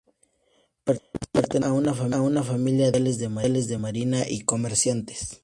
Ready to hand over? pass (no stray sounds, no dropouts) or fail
pass